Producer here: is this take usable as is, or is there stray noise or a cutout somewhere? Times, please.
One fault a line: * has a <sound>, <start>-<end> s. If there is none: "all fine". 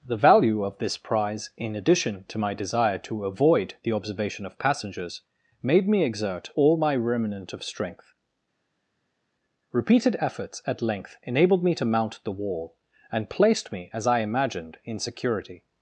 all fine